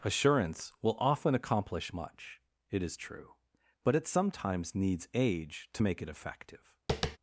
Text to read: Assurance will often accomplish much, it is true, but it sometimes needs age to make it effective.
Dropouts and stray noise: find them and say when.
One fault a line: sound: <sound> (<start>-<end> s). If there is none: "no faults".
sound: tap (6.9-7.2 s)